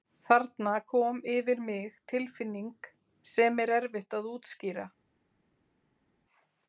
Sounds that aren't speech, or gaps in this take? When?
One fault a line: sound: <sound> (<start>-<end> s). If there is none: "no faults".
no faults